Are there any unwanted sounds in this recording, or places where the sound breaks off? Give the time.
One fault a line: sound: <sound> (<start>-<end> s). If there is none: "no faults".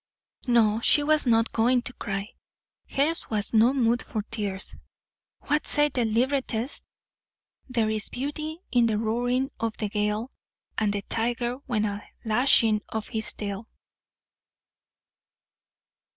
no faults